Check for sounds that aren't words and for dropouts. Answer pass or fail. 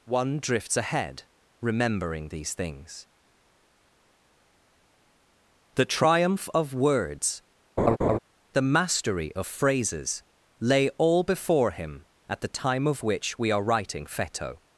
fail